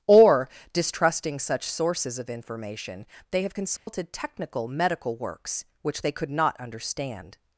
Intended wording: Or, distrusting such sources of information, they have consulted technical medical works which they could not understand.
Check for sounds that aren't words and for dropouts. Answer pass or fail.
fail